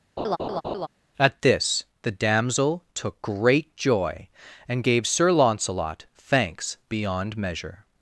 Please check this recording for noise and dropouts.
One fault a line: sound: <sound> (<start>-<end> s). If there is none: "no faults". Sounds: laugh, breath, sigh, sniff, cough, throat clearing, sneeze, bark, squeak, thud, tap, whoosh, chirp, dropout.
sound: laugh (0.2-0.9 s)